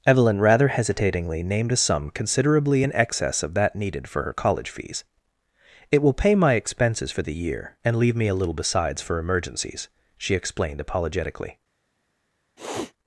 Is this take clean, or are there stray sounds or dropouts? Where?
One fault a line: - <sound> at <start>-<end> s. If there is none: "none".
- sniff at 12.6-12.9 s